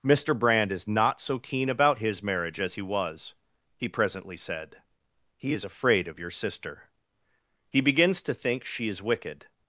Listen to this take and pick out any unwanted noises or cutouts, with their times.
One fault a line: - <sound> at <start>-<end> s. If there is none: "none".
none